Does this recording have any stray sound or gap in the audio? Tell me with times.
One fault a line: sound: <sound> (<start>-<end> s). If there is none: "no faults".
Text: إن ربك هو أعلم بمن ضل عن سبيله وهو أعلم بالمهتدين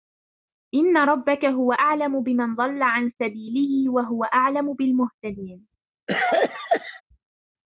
sound: cough (6.1-7.0 s)